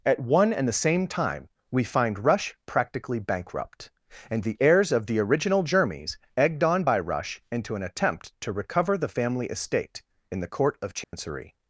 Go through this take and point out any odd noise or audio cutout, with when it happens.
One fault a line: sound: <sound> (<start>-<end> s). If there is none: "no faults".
sound: dropout (11.0-11.1 s)